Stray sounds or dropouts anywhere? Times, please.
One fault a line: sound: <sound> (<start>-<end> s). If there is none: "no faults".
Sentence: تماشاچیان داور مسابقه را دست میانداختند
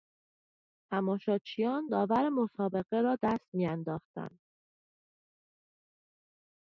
no faults